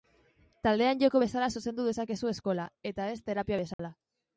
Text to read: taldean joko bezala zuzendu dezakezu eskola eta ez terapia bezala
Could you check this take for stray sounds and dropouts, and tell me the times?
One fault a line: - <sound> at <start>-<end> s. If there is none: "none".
- dropout at 3.7-3.8 s